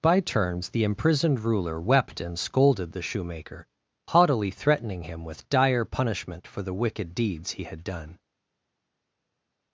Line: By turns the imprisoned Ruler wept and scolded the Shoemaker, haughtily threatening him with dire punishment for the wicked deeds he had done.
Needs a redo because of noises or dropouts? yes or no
no